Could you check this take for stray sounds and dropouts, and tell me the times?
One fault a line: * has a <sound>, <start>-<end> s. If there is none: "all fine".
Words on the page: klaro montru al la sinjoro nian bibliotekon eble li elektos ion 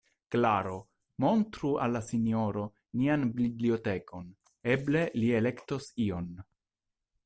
all fine